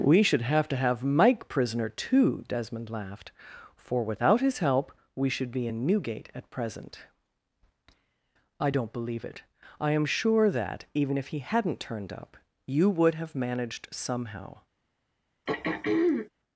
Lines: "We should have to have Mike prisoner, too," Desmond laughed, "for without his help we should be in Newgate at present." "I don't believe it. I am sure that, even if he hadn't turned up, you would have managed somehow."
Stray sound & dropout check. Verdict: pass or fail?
fail